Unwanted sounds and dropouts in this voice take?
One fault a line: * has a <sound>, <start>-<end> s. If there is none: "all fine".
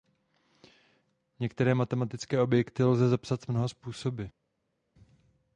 all fine